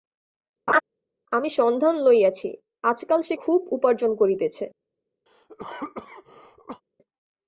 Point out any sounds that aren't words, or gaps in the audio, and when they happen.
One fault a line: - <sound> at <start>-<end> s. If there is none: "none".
- laugh at 0.7-0.8 s
- cough at 5.3-6.8 s